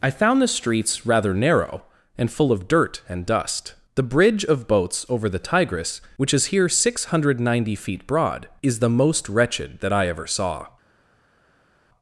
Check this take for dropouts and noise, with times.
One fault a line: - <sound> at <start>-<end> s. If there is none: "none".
none